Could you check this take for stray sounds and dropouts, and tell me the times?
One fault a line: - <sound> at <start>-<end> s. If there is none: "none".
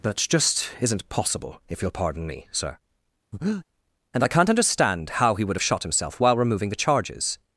- breath at 3.3-3.7 s